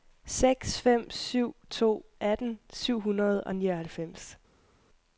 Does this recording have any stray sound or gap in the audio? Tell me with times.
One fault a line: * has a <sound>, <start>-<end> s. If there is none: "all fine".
all fine